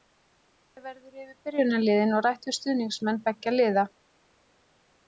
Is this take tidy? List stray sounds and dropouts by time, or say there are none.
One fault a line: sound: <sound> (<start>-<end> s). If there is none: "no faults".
no faults